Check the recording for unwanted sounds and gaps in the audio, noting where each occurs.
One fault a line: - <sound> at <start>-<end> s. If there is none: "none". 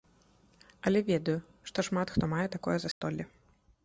- dropout at 2.9-3.0 s